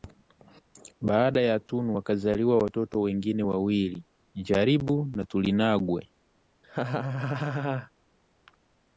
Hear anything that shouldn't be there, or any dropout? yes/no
yes